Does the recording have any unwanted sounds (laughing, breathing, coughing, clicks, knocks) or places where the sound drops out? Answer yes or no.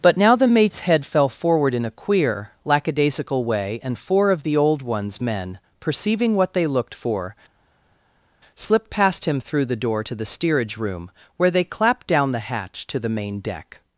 no